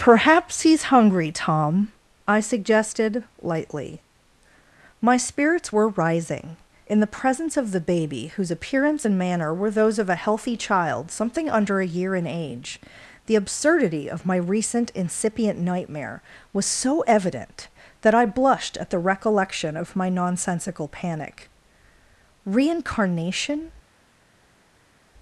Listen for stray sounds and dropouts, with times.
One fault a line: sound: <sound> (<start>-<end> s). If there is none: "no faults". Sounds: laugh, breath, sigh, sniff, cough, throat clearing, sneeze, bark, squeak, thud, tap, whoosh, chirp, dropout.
no faults